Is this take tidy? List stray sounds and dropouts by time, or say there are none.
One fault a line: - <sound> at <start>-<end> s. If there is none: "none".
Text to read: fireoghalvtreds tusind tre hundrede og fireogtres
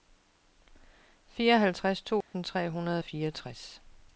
- dropout at 2.2-2.3 s